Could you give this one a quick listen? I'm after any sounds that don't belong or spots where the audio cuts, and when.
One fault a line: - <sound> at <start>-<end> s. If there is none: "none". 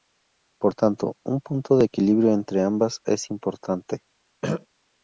- throat clearing at 4.4-4.7 s